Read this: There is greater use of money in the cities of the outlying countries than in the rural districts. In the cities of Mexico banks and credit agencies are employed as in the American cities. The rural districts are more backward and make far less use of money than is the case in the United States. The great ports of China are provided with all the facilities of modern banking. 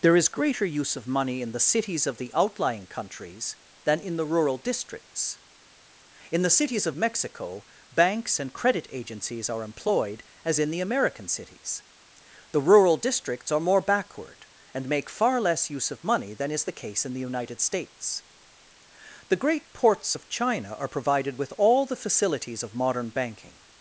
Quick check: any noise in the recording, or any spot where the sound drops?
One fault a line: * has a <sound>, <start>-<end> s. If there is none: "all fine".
all fine